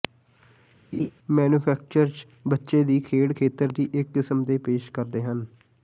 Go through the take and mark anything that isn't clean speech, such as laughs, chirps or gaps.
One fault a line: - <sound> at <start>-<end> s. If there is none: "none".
- laugh at 0.9-1.1 s